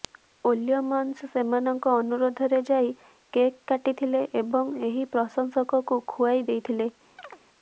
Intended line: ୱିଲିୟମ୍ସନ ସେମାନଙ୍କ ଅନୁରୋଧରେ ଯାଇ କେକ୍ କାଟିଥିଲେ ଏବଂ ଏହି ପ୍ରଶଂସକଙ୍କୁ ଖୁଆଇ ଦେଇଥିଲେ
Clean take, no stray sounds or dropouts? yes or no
no